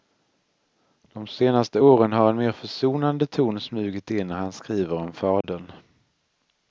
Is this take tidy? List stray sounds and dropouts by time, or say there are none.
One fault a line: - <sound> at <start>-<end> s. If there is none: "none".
- dropout at 5.4-5.4 s